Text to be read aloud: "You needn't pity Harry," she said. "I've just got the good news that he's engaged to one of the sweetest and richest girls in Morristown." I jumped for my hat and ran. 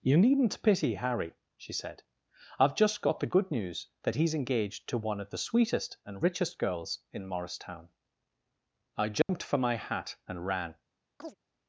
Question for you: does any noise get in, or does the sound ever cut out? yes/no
yes